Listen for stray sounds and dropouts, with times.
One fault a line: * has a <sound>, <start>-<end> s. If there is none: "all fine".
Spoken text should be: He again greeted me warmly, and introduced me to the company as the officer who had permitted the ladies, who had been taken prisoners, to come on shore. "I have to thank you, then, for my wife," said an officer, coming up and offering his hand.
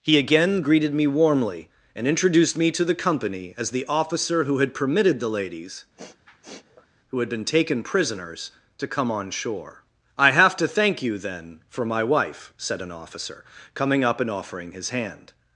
* has a sniff, 6.0-6.9 s